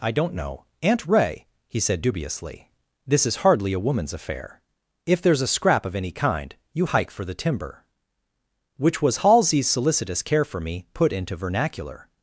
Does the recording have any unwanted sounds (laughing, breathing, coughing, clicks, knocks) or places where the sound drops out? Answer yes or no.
no